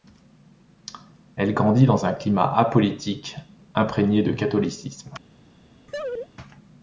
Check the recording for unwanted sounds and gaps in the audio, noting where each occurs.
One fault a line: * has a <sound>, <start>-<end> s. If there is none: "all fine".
* has a laugh, 5.9-6.3 s